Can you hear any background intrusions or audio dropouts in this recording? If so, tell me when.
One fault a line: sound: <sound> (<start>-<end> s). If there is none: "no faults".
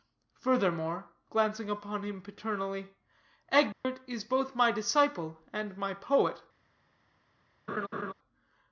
sound: dropout (3.7-3.8 s)
sound: laugh (7.7-8.1 s)